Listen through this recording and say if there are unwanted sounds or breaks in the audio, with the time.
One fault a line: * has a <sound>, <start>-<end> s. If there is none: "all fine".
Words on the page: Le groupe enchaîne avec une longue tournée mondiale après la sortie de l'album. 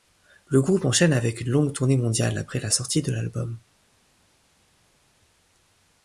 all fine